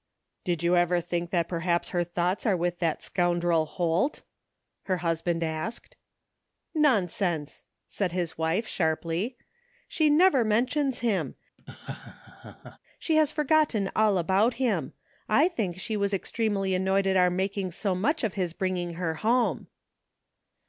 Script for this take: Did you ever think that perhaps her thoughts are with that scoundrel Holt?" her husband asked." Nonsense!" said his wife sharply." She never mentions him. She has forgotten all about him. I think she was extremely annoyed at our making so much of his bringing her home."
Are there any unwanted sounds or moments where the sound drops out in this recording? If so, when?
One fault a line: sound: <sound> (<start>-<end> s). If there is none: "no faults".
sound: laugh (11.6-12.8 s)